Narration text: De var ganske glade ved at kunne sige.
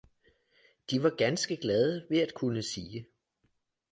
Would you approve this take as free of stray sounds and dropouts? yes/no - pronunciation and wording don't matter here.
yes